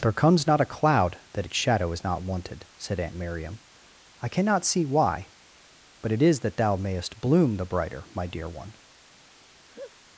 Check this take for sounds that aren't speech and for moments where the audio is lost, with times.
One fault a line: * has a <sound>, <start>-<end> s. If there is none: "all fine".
* has a laugh, 9.7-9.9 s